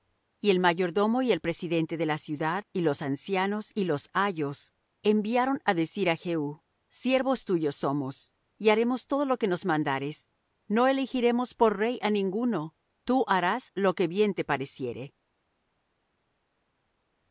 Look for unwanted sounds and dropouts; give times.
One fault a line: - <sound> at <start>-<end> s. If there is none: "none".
none